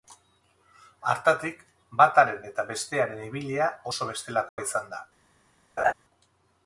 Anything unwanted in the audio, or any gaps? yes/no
yes